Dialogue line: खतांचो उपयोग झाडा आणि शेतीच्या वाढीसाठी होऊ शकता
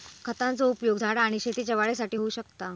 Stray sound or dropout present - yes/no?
no